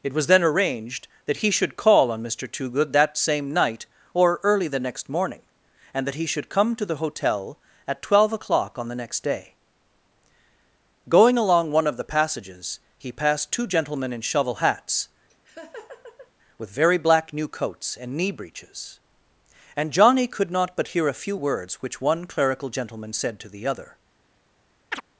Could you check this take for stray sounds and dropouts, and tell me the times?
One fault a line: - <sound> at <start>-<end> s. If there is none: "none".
- laugh at 15.3-16.3 s
- chirp at 24.9-25.0 s